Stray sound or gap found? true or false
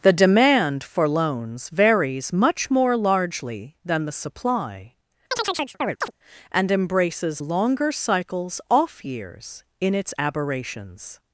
true